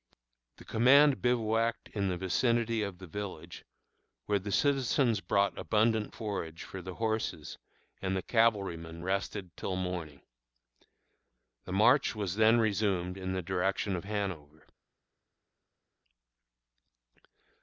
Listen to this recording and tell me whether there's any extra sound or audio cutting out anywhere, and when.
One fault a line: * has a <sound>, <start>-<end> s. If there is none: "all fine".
all fine